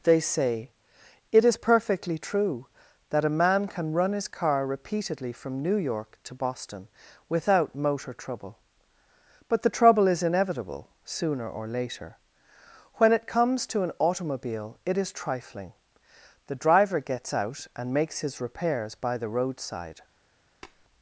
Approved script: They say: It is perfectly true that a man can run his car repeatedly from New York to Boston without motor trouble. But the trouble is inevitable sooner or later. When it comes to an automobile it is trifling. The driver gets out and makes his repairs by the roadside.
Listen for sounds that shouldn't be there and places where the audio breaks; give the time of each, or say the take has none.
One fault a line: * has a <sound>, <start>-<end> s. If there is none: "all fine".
* has a tap, 20.6-20.8 s